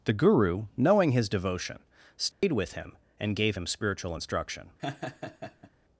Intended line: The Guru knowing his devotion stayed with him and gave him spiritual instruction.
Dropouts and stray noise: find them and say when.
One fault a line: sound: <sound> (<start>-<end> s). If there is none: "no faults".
sound: dropout (2.3-2.4 s)
sound: laugh (4.8-5.7 s)